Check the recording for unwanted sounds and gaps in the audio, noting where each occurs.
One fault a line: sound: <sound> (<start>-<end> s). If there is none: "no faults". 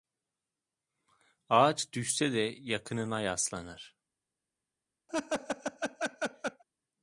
sound: laugh (5.1-6.6 s)